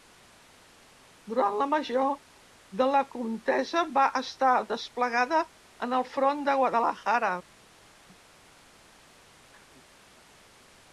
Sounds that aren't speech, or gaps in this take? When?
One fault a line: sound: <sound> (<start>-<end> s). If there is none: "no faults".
no faults